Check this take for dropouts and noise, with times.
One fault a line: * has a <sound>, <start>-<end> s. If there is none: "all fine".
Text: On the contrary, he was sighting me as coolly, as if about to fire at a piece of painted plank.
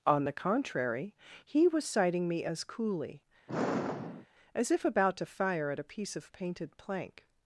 * has a sigh, 3.5-4.3 s